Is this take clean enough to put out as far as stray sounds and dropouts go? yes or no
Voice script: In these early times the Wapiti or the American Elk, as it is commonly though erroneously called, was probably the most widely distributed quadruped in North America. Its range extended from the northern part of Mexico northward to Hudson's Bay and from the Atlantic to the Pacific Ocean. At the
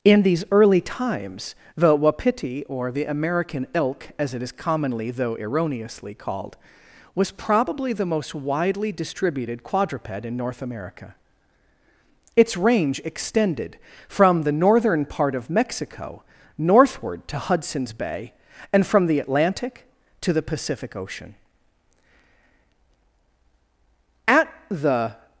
yes